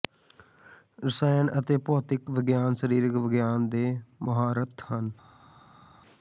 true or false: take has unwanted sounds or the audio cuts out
false